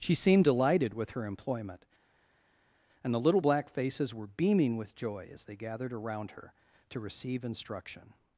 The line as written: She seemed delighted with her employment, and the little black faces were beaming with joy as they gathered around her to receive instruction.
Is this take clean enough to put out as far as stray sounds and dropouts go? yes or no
yes